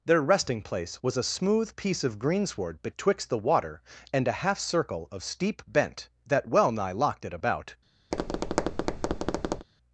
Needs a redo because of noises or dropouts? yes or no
yes